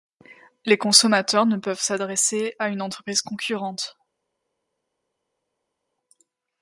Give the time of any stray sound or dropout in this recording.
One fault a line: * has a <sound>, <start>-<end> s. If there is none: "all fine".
all fine